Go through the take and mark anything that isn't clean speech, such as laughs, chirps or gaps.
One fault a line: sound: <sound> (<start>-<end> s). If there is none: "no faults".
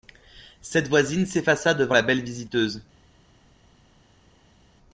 no faults